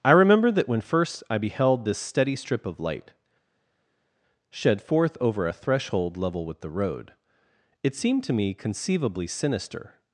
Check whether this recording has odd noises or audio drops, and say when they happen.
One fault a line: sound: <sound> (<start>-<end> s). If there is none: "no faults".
no faults